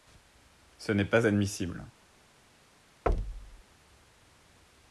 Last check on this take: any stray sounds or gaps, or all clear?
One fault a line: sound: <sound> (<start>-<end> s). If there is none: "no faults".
sound: thud (3.1-3.6 s)